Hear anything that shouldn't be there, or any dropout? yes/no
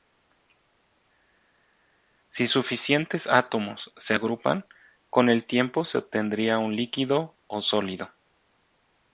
no